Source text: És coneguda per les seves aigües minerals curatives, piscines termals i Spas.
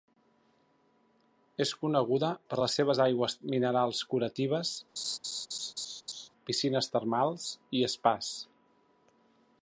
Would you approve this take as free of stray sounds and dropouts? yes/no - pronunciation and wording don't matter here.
no